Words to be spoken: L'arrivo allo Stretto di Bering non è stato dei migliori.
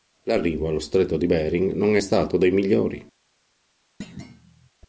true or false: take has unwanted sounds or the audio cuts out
true